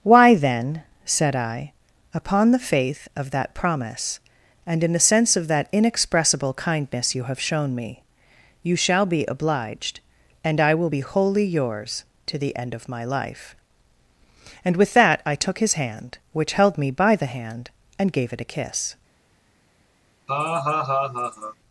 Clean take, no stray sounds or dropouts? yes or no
no